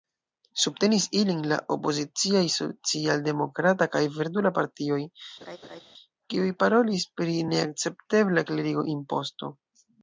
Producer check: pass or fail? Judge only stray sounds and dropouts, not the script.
fail